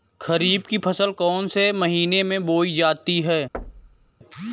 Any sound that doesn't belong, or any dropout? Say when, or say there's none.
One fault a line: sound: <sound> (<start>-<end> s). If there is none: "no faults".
sound: thud (3.5-4.1 s)